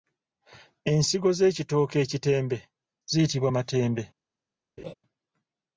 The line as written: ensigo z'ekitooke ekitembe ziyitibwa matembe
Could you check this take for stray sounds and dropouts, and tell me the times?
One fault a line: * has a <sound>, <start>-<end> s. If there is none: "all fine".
* has a laugh, 4.8-4.9 s